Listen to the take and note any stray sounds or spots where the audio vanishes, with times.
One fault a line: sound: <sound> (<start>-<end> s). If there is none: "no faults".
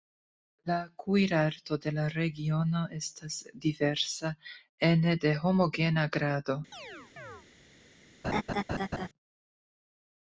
sound: chirp (6.7-7.5 s)
sound: laugh (8.2-9.1 s)